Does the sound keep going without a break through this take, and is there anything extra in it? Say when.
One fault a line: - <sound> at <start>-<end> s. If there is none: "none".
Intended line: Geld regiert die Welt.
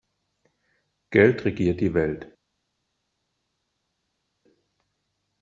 none